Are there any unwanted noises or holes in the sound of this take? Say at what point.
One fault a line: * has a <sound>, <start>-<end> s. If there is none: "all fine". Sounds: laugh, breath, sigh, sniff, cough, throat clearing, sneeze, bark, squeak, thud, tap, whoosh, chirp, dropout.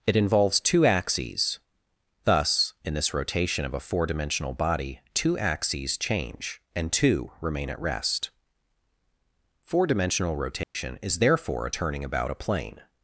* has a dropout, 10.6-10.8 s